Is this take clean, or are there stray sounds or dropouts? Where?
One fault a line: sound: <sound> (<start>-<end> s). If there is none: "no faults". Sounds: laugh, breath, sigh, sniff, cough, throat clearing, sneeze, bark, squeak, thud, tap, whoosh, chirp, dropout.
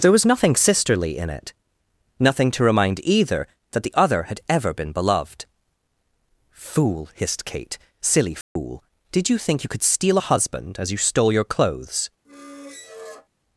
sound: dropout (8.4-8.6 s)
sound: squeak (12.2-13.3 s)